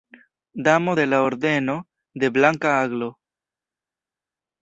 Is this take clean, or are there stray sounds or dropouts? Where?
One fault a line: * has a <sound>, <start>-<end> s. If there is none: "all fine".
all fine